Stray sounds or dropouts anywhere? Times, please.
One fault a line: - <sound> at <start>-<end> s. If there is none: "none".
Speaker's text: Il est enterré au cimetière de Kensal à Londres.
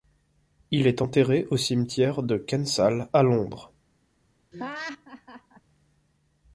- laugh at 4.5-5.6 s